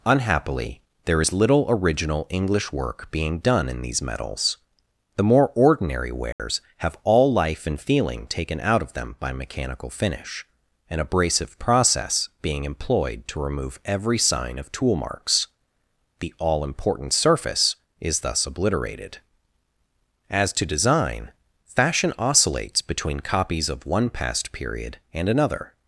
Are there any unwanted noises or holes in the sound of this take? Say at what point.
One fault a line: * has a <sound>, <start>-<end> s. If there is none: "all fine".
* has a dropout, 6.3-6.4 s